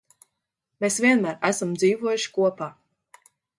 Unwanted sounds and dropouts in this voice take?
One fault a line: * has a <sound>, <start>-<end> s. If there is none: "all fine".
all fine